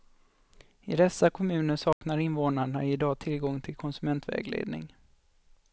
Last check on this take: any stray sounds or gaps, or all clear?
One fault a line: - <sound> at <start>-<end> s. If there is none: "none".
- dropout at 1.9-2.0 s